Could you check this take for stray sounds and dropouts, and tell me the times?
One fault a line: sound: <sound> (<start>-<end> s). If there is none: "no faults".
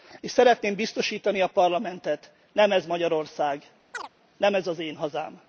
sound: chirp (3.9-4.1 s)